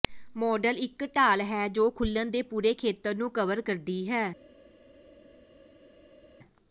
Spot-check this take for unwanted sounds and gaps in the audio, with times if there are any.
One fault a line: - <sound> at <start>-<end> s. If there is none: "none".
none